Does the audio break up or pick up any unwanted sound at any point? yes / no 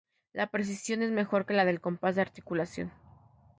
no